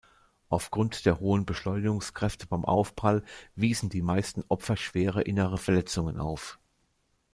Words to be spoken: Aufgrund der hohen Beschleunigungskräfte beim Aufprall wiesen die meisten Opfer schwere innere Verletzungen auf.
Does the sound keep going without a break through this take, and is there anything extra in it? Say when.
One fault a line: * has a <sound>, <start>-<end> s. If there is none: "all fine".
all fine